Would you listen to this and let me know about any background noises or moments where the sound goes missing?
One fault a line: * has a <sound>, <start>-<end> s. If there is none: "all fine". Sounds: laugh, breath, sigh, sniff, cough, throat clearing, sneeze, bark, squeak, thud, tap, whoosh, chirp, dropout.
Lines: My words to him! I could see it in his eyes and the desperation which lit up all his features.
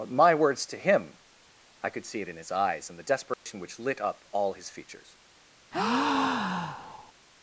* has a dropout, 3.3-3.5 s
* has a breath, 5.7-7.1 s